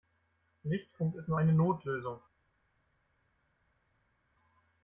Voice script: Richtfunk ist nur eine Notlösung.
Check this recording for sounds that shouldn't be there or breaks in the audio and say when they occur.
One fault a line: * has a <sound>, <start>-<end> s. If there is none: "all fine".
all fine